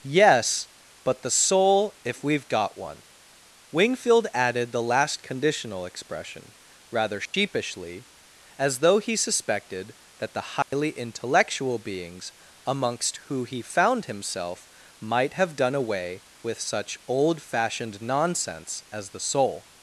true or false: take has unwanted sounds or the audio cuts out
true